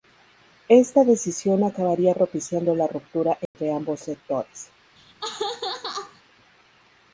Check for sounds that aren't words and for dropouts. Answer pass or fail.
fail